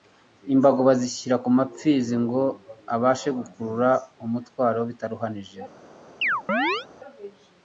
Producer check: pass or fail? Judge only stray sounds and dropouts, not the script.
fail